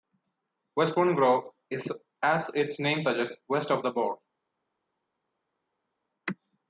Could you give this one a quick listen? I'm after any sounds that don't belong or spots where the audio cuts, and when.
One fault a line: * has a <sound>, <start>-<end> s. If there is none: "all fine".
all fine